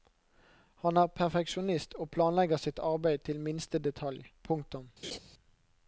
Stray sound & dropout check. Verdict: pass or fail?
fail